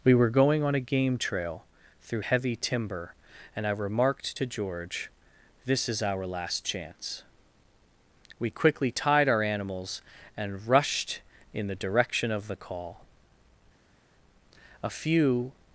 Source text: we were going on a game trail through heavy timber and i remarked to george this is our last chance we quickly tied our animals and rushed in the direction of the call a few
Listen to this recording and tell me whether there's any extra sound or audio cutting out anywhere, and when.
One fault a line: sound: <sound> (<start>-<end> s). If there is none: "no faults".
no faults